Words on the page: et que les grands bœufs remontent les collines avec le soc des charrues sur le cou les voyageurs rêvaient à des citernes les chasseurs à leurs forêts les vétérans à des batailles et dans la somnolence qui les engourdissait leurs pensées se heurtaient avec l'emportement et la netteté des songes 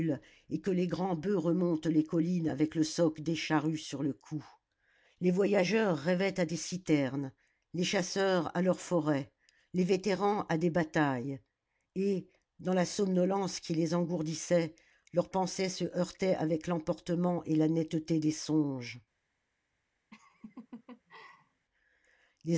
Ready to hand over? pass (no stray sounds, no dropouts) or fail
fail